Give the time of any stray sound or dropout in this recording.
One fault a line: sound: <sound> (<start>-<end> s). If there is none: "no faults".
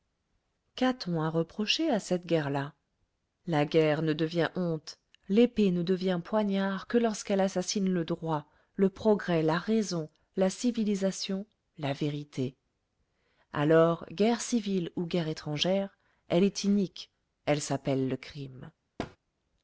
sound: thud (19.0-19.2 s)